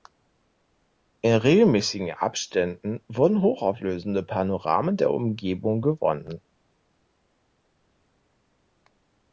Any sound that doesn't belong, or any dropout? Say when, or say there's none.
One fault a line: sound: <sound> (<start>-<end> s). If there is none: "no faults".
no faults